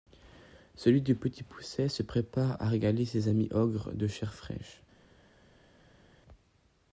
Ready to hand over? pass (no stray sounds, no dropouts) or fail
pass